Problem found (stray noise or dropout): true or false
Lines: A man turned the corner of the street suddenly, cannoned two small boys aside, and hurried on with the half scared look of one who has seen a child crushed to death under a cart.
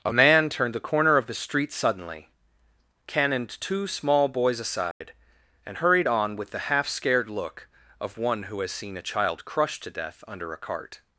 true